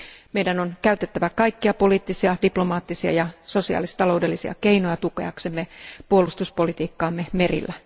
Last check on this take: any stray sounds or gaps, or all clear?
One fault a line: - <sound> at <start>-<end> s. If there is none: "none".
none